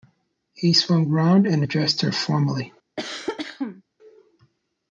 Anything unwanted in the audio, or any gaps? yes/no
yes